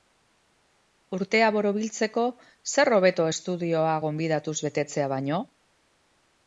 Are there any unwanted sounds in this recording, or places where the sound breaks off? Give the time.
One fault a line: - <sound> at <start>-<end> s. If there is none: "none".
none